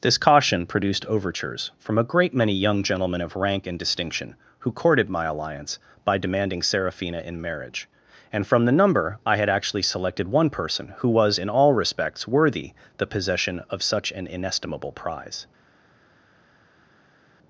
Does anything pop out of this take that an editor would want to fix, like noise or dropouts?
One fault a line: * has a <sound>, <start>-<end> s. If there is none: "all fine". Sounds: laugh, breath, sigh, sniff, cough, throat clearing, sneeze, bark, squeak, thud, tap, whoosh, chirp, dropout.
all fine